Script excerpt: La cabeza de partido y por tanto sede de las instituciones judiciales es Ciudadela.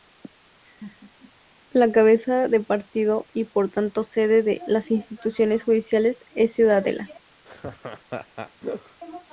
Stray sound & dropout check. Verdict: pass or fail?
fail